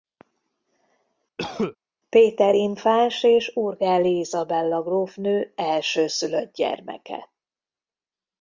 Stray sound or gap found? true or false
true